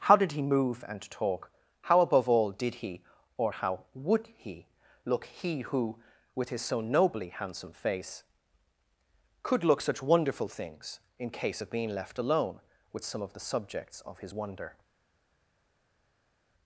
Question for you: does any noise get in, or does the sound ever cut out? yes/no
no